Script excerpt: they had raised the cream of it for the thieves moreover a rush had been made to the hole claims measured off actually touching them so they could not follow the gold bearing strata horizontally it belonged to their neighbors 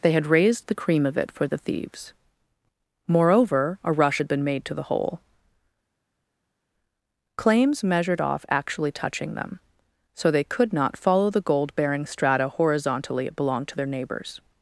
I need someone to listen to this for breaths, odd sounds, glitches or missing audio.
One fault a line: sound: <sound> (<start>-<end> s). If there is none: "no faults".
no faults